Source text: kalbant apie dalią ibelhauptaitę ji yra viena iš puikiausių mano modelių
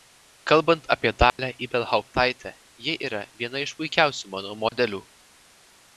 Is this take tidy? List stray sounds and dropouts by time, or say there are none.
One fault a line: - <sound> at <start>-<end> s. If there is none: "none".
- dropout at 1.3-1.4 s
- dropout at 4.7-4.7 s